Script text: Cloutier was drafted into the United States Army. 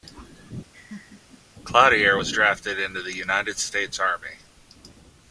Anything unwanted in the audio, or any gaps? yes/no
yes